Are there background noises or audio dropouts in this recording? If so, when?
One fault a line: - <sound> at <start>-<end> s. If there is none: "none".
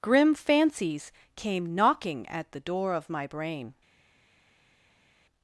none